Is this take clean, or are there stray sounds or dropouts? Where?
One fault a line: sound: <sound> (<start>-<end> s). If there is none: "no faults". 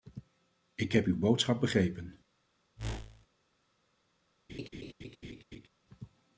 sound: whoosh (2.8-3.3 s)
sound: laugh (4.5-5.7 s)